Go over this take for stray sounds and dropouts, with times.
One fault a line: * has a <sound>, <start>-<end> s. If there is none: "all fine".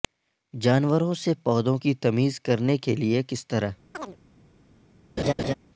* has a chirp, 3.9-4.2 s
* has a laugh, 5.2-5.5 s